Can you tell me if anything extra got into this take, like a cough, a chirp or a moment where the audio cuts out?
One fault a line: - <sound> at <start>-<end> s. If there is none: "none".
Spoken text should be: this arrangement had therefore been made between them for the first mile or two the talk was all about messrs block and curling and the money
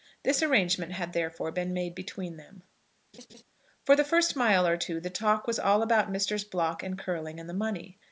- laugh at 3.1-3.4 s